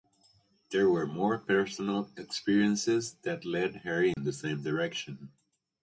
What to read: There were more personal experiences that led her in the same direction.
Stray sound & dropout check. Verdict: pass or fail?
fail